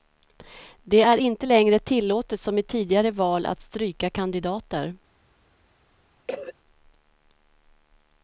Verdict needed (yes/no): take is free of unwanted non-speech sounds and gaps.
no